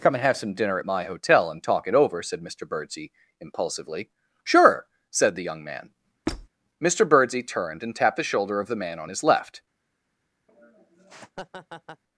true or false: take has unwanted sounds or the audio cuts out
true